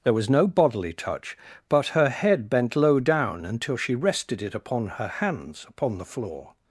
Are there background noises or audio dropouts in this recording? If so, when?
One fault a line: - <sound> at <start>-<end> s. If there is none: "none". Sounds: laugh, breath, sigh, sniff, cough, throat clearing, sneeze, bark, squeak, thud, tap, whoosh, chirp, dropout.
none